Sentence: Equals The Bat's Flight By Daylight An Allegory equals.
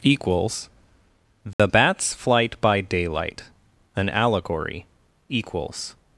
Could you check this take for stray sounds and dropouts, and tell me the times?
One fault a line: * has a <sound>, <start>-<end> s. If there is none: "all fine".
* has a dropout, 1.5-1.6 s